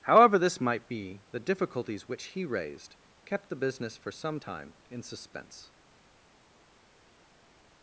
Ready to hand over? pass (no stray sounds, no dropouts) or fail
pass